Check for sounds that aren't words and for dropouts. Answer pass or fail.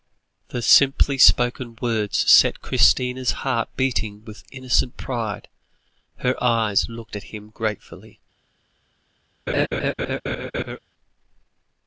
fail